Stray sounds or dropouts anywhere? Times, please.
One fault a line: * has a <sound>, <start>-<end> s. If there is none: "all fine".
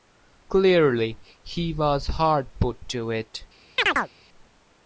* has a chirp, 3.8-4.1 s